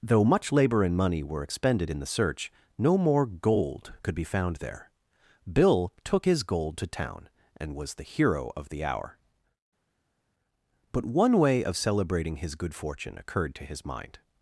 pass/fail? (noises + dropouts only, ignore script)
pass